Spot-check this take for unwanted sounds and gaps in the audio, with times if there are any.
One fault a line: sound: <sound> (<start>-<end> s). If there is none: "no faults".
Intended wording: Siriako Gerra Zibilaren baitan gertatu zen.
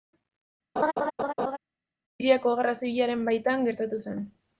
sound: laugh (0.8-1.6 s)